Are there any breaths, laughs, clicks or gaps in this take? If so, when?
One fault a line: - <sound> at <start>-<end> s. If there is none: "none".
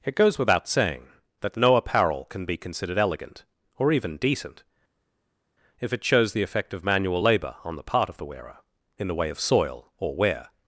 none